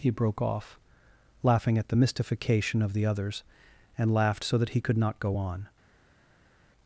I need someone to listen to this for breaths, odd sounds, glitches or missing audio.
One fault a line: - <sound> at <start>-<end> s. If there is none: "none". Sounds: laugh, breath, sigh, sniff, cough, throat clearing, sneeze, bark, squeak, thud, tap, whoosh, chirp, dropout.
none